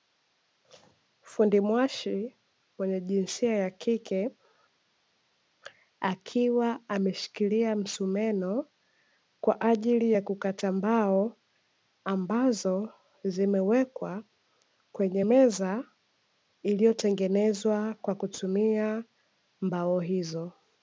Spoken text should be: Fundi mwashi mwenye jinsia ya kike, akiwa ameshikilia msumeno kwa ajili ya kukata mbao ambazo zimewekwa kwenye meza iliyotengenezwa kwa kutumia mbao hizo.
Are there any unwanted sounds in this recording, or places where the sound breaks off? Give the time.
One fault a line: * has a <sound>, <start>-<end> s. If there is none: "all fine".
all fine